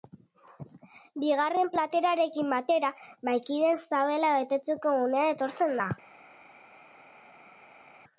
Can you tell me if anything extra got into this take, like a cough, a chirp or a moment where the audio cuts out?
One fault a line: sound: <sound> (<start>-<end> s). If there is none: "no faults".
no faults